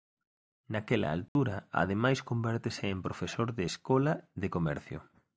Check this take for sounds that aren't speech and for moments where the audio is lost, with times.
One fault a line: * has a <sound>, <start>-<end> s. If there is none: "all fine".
* has a dropout, 1.3-1.4 s